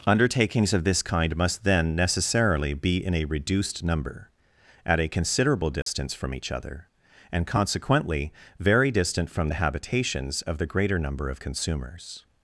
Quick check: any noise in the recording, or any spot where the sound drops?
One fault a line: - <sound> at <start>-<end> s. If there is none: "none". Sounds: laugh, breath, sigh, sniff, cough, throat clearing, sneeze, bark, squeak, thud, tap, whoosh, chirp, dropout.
- dropout at 5.8-5.9 s